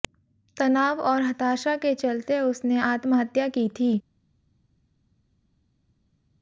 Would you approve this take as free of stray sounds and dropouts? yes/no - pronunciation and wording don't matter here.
yes